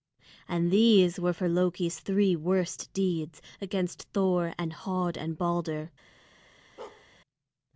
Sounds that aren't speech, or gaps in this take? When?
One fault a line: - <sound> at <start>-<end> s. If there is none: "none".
- bark at 6.8-7.1 s